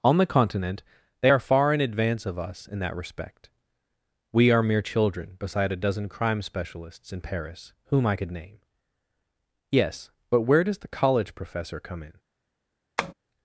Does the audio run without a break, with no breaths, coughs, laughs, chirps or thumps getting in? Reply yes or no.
no